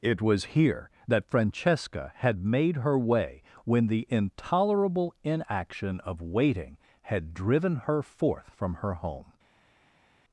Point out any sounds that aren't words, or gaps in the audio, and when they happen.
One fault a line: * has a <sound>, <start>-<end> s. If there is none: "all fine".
all fine